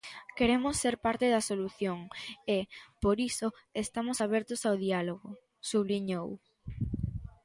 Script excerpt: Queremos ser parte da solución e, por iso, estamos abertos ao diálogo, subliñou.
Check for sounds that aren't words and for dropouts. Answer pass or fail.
pass